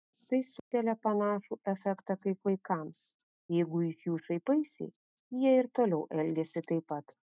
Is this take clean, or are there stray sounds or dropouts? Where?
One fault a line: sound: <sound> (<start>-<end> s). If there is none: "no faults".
sound: dropout (0.6-0.7 s)